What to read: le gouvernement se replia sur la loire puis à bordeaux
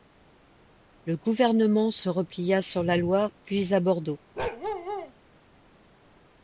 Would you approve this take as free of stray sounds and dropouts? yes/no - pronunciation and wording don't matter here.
no